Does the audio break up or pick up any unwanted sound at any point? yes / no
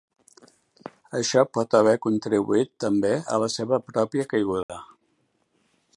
yes